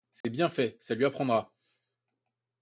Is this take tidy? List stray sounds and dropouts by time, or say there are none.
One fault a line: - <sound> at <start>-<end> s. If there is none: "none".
- dropout at 0.2-0.2 s